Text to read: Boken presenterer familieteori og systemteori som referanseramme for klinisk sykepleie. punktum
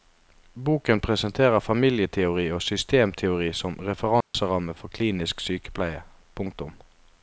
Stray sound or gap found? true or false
true